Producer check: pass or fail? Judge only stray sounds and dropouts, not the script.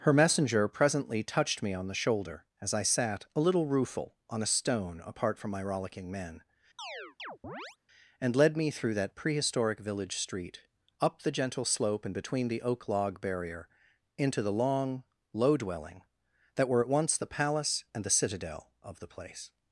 fail